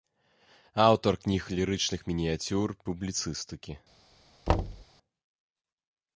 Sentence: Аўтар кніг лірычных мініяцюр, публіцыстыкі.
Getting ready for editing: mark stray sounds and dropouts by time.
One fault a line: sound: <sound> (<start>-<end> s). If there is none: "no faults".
sound: thud (4.5-4.9 s)